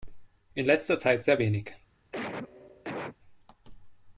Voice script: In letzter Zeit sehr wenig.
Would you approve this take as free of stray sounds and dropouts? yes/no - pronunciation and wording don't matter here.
no